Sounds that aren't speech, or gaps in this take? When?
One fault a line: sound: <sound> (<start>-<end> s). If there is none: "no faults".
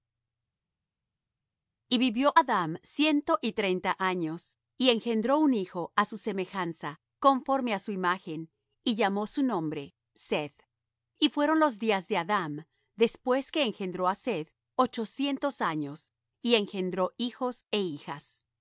no faults